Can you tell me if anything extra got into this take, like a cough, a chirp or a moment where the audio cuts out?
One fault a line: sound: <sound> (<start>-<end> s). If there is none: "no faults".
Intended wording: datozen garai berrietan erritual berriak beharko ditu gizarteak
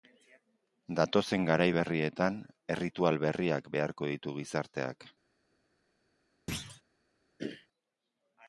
sound: thud (6.5-6.8 s)
sound: throat clearing (7.4-7.7 s)